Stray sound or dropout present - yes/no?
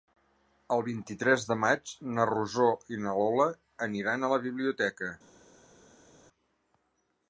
no